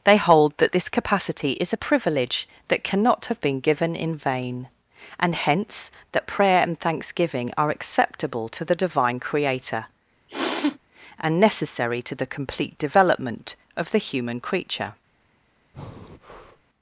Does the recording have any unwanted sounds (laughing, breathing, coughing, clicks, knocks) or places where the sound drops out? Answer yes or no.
yes